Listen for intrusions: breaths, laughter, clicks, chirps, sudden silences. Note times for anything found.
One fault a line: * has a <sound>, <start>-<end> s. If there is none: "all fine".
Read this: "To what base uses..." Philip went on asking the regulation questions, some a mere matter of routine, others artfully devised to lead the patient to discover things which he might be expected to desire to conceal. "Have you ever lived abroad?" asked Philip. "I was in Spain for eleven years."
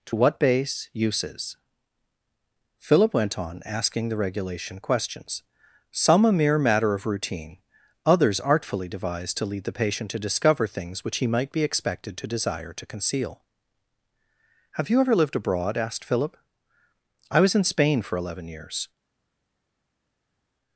all fine